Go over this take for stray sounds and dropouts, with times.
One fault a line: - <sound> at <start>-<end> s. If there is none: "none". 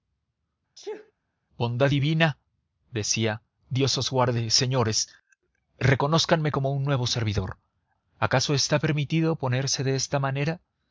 - sneeze at 0.7-1.1 s